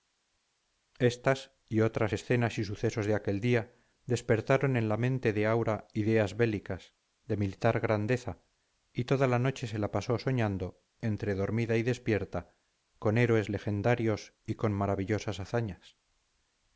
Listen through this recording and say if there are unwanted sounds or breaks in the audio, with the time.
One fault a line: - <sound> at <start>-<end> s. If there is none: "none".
none